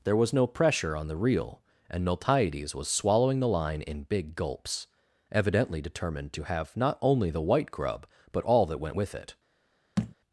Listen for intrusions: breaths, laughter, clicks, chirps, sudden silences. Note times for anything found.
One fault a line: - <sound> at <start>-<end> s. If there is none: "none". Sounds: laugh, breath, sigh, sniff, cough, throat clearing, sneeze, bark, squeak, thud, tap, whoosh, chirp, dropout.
- thud at 10.0-10.1 s